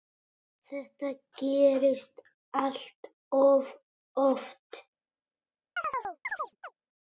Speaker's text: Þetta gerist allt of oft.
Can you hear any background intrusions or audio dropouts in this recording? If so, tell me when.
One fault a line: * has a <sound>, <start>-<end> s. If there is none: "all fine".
* has a chirp, 5.8-6.8 s